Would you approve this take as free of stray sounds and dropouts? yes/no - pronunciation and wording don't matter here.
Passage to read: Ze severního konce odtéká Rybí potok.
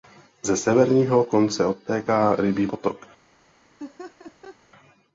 no